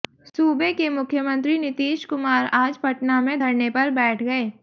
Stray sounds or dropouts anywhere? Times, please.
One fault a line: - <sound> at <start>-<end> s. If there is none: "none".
none